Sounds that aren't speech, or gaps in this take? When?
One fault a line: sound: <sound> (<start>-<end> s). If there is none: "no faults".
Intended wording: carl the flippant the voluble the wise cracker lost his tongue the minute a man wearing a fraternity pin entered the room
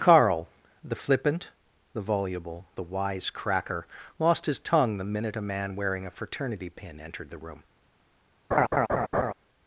sound: laugh (8.5-9.3 s)